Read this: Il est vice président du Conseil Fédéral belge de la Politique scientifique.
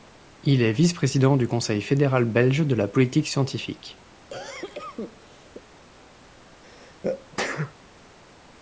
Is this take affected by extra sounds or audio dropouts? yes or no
yes